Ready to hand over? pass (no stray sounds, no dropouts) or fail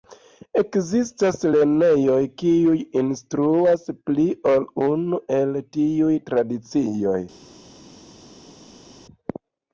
pass